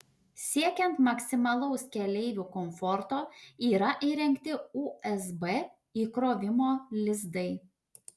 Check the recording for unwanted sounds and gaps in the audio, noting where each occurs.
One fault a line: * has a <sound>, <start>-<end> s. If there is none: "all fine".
all fine